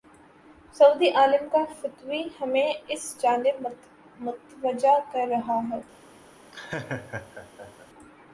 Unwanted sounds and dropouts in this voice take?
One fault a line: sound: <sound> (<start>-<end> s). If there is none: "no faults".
sound: laugh (6.5-7.9 s)